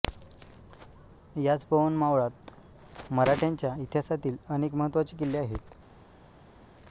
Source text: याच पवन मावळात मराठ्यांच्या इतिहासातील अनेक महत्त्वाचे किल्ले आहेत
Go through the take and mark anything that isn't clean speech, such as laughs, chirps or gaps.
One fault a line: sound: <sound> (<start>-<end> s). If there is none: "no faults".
no faults